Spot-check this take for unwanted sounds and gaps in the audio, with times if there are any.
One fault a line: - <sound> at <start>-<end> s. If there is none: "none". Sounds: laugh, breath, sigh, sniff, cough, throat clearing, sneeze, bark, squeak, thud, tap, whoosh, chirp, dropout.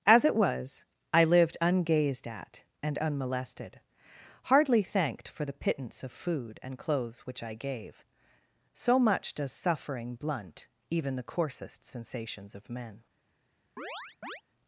- chirp at 13.8-14.4 s